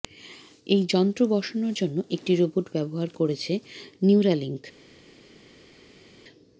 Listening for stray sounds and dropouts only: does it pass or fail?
pass